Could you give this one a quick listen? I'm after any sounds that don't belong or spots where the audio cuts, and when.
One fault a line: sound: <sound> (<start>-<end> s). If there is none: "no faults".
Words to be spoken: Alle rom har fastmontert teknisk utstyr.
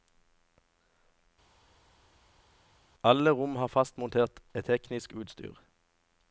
no faults